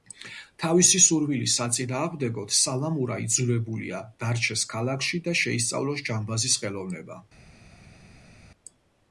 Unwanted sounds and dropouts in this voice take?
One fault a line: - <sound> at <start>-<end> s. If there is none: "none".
none